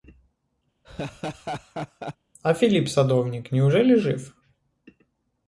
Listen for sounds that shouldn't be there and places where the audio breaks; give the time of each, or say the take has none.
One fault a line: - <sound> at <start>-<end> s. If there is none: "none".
- laugh at 0.8-2.2 s